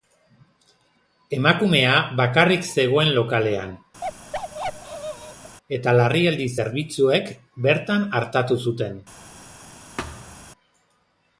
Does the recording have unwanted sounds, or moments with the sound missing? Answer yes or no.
yes